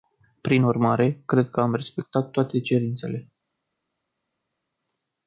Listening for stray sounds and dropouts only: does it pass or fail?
pass